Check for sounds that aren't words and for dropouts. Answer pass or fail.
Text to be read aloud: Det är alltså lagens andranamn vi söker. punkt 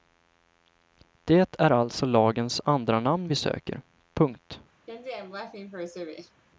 fail